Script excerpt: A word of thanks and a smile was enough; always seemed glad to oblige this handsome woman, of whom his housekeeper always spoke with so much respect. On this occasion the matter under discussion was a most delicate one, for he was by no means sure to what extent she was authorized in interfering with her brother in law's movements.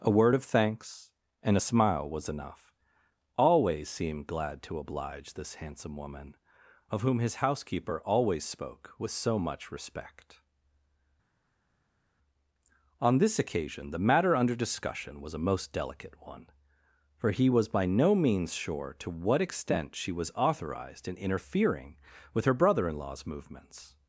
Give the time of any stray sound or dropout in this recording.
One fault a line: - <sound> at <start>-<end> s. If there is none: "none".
none